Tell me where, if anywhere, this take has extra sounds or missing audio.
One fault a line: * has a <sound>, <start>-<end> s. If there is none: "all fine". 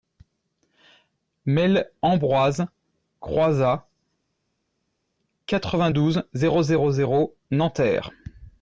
all fine